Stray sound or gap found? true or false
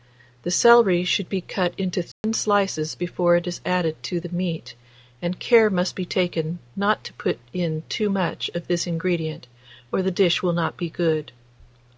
true